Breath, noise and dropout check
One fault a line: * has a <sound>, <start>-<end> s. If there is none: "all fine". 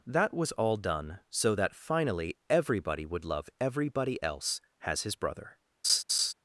* has a laugh, 5.8-6.3 s